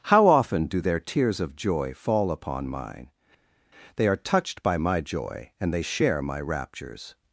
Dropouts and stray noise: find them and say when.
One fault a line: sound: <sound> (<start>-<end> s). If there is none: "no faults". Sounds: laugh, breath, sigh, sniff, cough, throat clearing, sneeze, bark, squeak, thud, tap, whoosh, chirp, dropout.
no faults